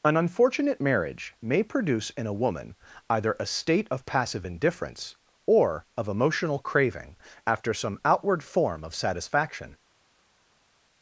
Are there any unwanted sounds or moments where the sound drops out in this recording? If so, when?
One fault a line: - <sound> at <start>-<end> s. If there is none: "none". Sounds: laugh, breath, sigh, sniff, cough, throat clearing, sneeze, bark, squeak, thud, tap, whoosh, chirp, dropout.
none